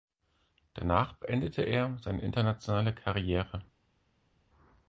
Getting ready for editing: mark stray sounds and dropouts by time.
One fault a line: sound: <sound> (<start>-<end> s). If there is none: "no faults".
no faults